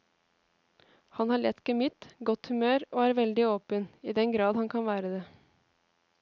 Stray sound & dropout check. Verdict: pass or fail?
pass